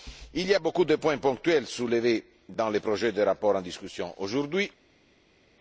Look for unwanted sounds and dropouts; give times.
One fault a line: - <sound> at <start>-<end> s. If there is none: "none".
none